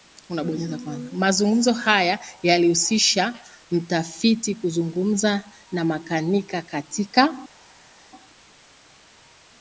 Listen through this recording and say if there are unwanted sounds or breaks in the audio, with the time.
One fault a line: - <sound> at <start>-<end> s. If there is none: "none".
none